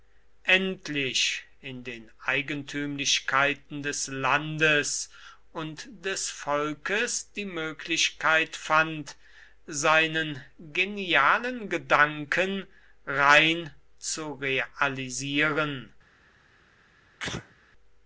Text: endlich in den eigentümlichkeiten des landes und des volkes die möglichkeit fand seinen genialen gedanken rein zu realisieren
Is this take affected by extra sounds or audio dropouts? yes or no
yes